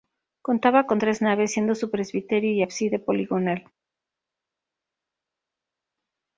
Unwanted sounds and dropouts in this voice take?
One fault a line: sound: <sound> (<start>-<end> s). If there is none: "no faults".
no faults